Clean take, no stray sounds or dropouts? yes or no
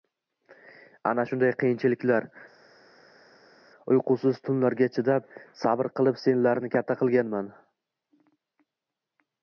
yes